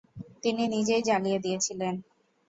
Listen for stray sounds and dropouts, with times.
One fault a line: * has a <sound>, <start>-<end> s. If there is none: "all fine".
all fine